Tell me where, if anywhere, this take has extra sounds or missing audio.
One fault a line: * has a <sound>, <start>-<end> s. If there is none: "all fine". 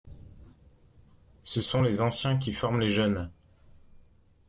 all fine